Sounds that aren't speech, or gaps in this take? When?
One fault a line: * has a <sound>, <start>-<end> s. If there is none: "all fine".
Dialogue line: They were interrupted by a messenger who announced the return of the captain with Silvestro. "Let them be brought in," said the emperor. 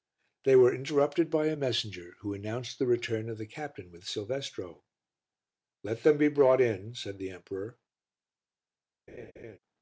* has a laugh, 9.1-9.6 s